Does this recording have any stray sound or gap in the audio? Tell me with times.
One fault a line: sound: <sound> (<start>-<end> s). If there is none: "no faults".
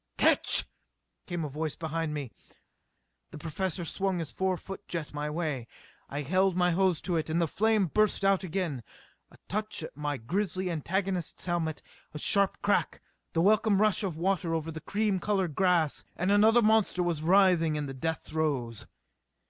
no faults